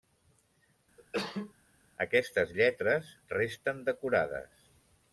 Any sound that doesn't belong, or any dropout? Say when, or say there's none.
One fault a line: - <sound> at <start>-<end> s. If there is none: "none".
- cough at 1.0-1.5 s